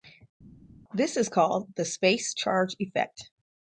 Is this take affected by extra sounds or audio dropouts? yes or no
no